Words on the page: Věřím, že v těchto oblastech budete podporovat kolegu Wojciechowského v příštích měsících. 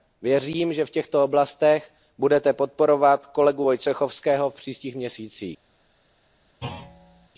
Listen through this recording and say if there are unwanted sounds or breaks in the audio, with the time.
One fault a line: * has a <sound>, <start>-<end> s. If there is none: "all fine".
* has a thud, 6.6-7.3 s